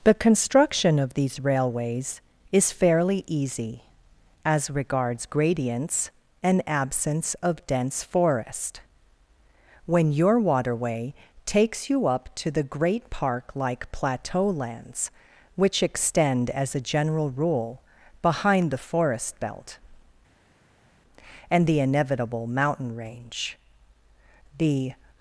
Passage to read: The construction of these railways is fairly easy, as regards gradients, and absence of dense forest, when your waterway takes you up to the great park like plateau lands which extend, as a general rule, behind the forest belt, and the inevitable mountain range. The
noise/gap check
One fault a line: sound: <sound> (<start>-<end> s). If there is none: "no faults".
no faults